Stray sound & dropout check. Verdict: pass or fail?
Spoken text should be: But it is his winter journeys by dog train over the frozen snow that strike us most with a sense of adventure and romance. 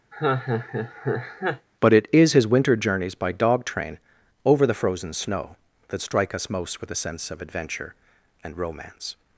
fail